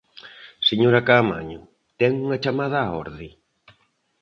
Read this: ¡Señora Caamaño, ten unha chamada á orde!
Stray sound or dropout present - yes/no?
no